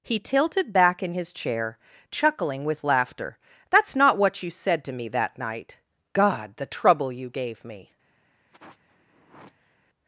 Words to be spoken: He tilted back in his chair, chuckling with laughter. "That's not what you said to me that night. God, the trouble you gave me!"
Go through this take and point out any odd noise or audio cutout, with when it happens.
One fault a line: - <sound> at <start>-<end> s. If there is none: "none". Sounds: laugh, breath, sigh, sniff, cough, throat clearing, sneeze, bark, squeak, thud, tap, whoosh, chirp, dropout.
- sigh at 8.5-9.8 s